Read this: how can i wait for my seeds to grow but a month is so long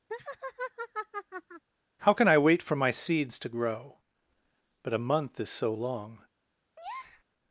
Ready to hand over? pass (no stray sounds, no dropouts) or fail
fail